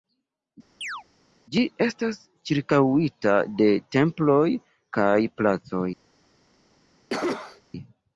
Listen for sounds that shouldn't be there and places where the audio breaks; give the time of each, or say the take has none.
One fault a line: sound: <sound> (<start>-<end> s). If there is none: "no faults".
sound: chirp (0.8-1.0 s)
sound: cough (7.1-7.6 s)